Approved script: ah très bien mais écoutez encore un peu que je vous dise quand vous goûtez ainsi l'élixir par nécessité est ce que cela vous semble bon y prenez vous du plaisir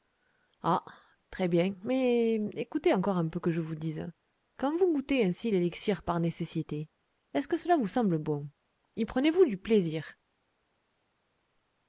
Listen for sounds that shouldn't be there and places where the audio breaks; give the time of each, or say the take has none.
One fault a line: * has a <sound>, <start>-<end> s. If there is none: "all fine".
all fine